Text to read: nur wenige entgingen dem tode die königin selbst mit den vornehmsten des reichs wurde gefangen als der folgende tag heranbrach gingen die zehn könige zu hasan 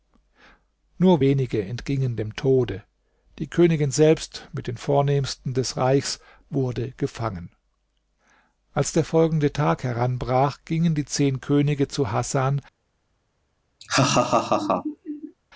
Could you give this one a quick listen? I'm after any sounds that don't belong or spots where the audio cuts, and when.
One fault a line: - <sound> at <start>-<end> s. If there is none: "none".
- laugh at 13.8-15.3 s